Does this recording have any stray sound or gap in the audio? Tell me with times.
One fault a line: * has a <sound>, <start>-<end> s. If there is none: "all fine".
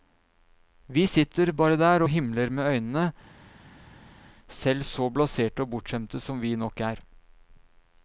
all fine